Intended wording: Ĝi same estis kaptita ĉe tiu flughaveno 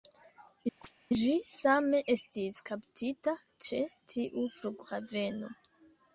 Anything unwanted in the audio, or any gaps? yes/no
yes